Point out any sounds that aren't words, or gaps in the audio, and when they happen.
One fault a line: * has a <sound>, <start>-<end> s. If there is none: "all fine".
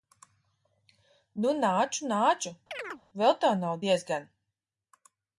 * has a chirp, 2.7-3.0 s